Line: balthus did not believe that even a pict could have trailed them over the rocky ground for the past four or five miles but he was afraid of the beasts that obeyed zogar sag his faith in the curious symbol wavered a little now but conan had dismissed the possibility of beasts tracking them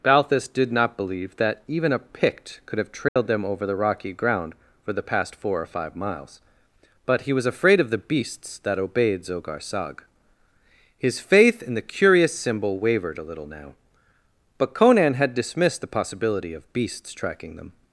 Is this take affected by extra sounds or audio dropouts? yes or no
yes